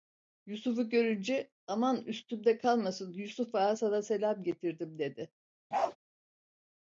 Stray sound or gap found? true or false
true